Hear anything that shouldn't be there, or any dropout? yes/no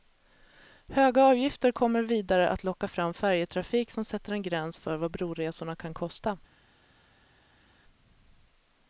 no